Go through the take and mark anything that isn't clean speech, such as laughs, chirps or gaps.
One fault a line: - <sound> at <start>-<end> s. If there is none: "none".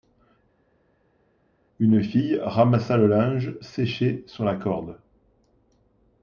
none